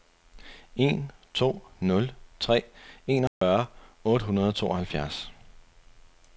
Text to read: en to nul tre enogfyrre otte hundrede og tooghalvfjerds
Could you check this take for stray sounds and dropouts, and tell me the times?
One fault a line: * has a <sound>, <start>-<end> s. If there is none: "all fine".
* has a dropout, 3.3-3.4 s